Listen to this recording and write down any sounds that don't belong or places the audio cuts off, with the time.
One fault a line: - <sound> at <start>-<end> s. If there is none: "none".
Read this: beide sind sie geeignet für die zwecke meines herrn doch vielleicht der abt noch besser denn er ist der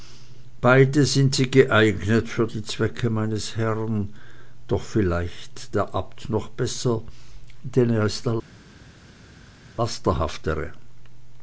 none